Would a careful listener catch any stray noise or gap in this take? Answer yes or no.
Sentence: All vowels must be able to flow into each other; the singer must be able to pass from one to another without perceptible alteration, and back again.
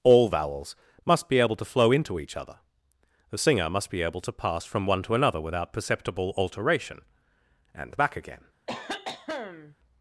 yes